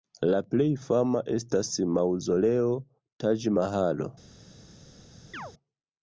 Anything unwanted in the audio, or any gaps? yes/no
yes